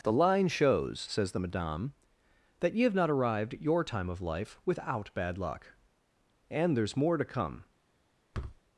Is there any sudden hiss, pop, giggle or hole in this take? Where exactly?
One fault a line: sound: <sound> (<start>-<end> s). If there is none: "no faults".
sound: thud (8.3-8.6 s)